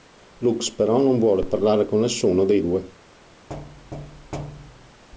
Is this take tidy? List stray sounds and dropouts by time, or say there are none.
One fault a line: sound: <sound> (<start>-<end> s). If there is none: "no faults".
sound: thud (3.5-5.0 s)